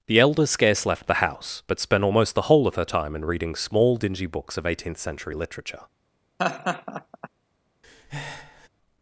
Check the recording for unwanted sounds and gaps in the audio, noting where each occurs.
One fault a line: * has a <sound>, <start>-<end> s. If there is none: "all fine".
* has a laugh, 6.4-7.3 s
* has a breath, 7.8-8.7 s